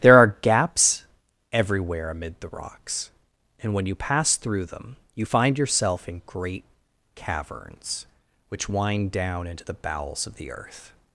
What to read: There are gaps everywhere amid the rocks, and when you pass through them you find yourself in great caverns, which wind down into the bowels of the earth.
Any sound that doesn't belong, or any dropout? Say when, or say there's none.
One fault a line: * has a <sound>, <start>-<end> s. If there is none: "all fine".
all fine